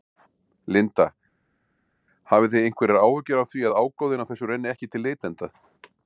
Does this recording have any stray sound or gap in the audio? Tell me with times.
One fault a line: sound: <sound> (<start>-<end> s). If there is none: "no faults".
no faults